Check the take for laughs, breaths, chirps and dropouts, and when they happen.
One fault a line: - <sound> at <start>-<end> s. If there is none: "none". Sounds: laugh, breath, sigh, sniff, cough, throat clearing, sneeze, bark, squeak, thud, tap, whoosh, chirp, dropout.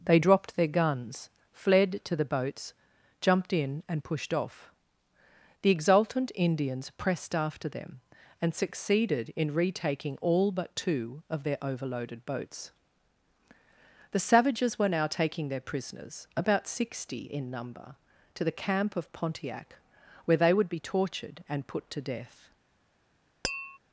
- tap at 23.4-23.8 s